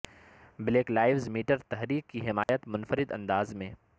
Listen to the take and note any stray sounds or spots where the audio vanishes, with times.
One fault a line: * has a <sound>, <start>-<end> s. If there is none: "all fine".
* has a dropout, 2.4-2.5 s